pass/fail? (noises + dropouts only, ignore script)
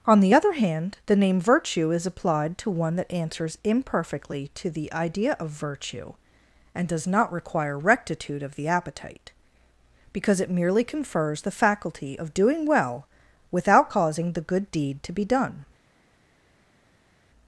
pass